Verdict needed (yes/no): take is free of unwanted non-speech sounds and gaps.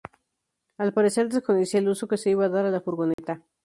no